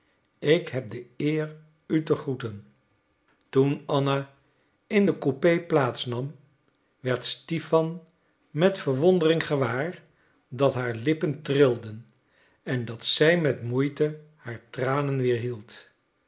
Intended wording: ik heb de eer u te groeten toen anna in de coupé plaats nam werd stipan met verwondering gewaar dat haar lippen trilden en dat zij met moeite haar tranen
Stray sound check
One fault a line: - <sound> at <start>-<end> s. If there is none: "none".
none